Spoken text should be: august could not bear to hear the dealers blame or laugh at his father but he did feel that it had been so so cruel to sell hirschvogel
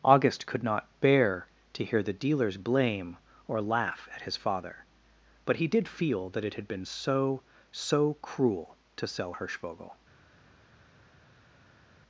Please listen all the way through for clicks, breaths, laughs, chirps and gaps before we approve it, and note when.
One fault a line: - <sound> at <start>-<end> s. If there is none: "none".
none